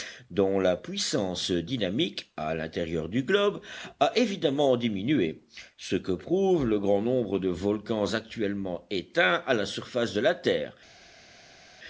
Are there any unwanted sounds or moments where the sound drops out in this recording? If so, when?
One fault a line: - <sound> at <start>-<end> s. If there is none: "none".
none